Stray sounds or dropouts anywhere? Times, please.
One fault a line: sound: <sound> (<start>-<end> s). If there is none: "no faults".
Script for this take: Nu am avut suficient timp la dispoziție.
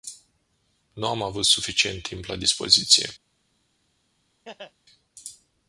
sound: laugh (4.4-4.7 s)